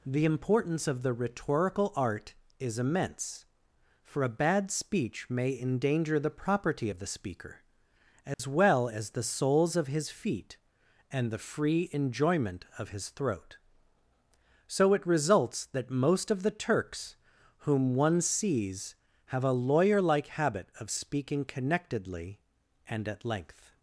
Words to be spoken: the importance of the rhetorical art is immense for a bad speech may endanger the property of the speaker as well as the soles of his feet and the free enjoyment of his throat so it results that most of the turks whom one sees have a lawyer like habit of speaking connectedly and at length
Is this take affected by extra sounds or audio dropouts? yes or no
yes